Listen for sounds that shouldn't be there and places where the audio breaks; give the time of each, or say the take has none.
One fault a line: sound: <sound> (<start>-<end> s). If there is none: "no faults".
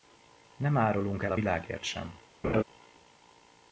sound: laugh (2.4-2.6 s)